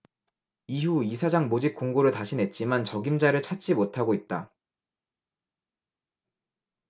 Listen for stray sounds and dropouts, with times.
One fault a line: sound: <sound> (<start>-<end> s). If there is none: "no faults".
no faults